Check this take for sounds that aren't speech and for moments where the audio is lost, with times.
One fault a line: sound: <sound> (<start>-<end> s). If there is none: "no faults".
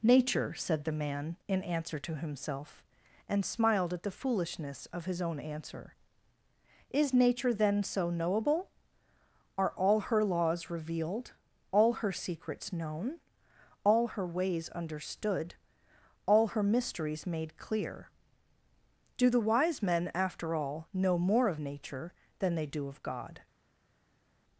no faults